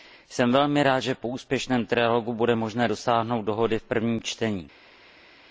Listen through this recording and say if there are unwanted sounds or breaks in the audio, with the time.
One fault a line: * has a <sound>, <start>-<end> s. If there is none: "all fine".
all fine